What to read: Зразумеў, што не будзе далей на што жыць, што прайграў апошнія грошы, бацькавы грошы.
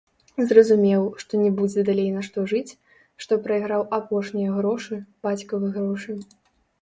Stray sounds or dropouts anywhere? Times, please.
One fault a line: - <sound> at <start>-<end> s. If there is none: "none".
none